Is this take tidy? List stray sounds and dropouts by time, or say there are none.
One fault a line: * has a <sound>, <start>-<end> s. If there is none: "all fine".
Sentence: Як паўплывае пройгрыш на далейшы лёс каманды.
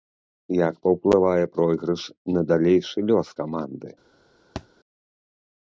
* has a thud, 4.6-4.7 s